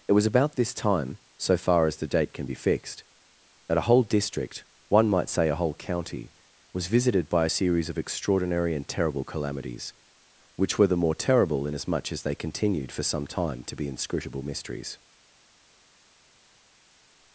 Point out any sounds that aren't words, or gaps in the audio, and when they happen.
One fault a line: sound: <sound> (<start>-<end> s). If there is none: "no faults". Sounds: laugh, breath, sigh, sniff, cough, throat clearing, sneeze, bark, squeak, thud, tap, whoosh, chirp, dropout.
no faults